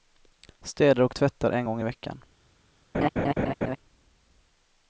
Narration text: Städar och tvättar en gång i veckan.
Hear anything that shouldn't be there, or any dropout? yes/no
yes